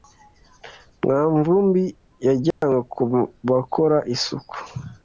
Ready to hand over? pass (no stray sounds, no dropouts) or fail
fail